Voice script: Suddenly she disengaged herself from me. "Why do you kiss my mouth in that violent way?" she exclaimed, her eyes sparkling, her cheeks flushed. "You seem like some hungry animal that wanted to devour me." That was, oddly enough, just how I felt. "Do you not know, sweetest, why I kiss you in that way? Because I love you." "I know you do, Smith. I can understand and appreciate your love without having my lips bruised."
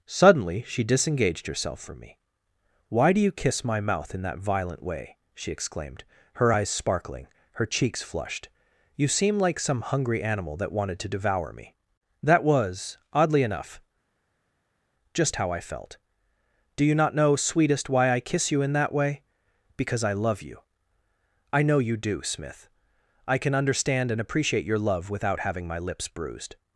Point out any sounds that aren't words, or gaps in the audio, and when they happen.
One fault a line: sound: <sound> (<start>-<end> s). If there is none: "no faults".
no faults